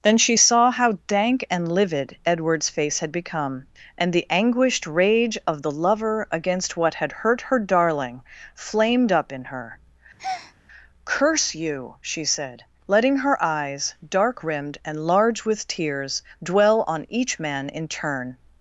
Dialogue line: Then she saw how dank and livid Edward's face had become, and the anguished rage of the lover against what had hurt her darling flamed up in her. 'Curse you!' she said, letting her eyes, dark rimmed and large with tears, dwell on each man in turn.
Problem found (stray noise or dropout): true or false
true